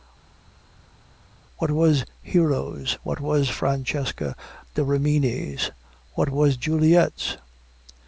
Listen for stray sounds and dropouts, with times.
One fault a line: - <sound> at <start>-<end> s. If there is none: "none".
none